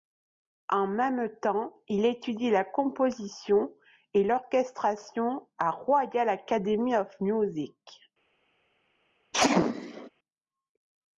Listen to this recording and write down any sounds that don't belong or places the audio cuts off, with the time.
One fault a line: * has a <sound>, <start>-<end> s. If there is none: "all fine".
* has a sneeze, 9.3-10.1 s